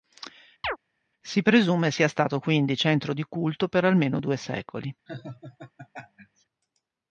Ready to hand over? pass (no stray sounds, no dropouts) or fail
fail